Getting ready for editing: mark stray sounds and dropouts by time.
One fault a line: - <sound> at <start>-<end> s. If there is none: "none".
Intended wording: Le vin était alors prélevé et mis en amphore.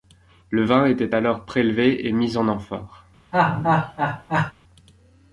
- laugh at 3.3-4.5 s